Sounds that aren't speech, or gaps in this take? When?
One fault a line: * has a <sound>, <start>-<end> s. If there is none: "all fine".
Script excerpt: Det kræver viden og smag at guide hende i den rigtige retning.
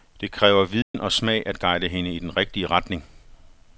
* has a dropout, 0.8-0.9 s